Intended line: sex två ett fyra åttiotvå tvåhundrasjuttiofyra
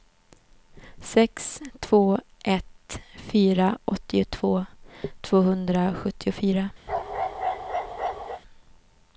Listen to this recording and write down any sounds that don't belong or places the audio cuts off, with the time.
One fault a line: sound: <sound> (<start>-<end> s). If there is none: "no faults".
sound: bark (6.9-8.4 s)